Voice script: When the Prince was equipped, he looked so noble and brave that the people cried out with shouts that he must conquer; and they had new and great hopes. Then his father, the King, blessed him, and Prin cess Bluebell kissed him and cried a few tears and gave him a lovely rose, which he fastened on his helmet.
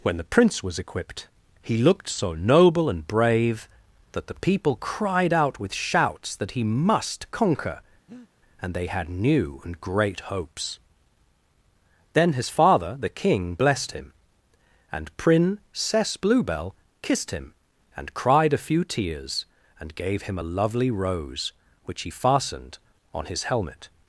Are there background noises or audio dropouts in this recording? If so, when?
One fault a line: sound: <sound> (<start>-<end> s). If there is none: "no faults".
sound: breath (8.1-8.3 s)